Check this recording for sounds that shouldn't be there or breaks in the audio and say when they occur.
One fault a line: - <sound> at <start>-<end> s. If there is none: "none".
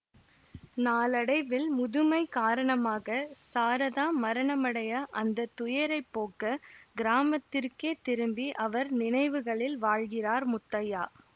none